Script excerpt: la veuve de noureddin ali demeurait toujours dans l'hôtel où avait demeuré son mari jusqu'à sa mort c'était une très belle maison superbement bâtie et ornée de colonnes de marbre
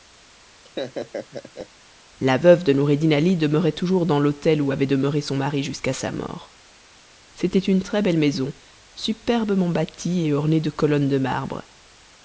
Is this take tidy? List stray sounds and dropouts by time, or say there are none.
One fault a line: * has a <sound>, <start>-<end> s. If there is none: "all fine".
* has a laugh, 0.6-1.7 s